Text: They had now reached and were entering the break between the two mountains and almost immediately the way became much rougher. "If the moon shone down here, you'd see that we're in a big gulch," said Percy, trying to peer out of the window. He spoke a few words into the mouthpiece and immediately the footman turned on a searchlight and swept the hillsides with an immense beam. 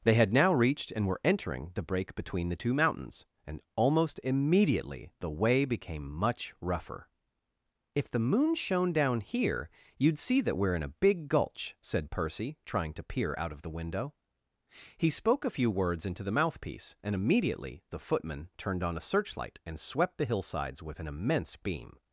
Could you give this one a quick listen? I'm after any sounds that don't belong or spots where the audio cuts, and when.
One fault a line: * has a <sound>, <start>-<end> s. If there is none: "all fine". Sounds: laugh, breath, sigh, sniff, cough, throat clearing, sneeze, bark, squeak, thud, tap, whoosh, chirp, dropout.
all fine